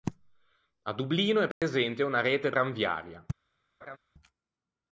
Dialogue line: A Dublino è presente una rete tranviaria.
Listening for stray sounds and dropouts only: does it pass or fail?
fail